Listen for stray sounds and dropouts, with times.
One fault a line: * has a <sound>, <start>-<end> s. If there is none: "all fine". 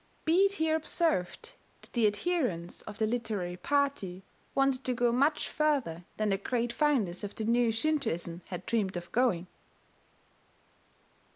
all fine